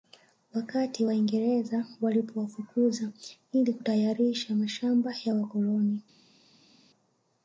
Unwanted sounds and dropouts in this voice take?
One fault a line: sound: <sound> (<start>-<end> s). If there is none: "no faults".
no faults